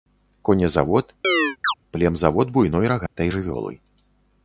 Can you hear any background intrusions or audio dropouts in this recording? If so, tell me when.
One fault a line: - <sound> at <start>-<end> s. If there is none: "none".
- chirp at 1.2-1.7 s
- dropout at 3.1-3.2 s